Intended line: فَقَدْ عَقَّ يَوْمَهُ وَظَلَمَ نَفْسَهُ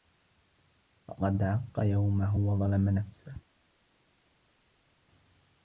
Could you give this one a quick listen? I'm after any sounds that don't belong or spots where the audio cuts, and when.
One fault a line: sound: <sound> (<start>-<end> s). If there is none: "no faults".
no faults